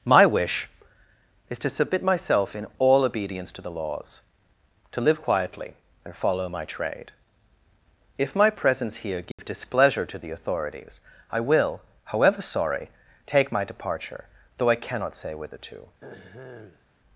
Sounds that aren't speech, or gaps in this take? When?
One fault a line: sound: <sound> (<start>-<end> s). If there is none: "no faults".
sound: dropout (9.3-9.4 s)
sound: throat clearing (16.0-16.8 s)